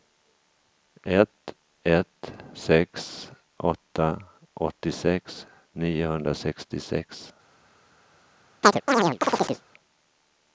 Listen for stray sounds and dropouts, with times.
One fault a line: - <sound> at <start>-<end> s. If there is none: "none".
- chirp at 8.6-9.6 s